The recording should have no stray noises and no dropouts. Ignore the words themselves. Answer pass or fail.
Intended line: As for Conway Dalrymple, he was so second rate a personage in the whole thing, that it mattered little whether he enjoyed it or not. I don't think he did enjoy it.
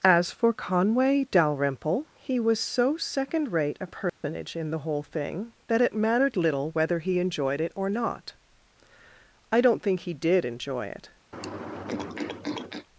fail